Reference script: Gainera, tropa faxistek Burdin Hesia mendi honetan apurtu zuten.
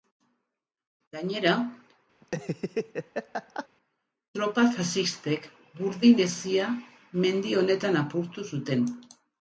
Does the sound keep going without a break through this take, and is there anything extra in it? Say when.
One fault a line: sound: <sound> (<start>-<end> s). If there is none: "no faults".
sound: laugh (2.2-3.7 s)